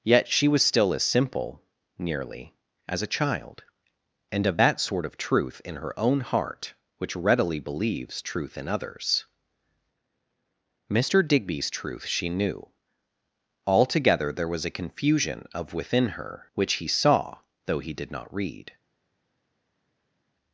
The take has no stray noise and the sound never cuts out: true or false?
true